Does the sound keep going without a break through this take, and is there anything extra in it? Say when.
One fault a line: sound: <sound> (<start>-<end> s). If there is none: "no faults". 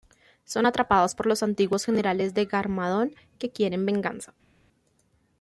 no faults